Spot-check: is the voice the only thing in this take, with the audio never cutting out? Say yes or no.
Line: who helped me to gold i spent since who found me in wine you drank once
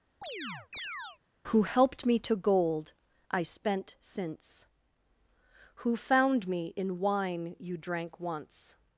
no